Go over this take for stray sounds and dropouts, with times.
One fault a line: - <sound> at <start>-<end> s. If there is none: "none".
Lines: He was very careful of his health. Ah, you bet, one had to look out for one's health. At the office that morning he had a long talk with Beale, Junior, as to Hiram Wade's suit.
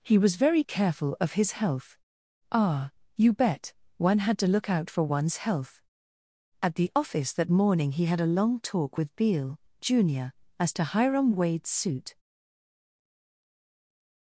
none